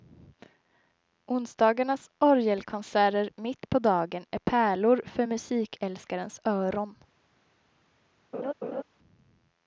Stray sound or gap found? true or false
true